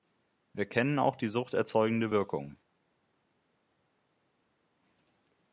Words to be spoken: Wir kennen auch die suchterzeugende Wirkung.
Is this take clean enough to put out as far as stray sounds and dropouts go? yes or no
yes